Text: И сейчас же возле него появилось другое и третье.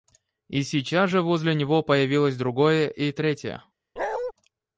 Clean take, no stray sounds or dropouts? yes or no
no